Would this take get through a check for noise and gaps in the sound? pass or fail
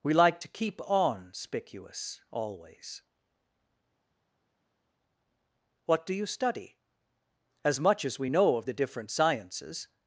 pass